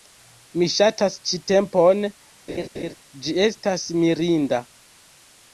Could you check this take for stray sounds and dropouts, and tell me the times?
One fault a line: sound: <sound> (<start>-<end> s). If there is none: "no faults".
sound: laugh (2.5-2.9 s)